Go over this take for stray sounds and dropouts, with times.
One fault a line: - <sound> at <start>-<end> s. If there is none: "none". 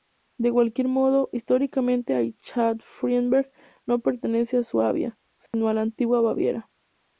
- dropout at 5.5-5.5 s